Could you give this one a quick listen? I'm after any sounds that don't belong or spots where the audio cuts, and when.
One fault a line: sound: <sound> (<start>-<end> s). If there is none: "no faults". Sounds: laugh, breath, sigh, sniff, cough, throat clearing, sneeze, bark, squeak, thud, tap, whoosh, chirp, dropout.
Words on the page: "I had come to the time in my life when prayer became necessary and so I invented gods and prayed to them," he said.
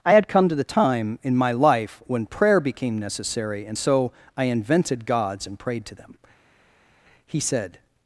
no faults